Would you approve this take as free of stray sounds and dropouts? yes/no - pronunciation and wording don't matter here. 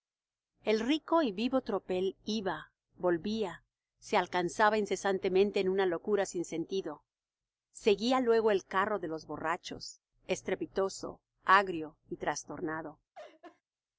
no